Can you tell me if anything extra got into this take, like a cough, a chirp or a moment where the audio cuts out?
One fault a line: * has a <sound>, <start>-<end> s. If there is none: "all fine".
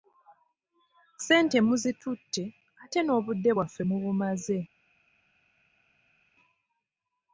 all fine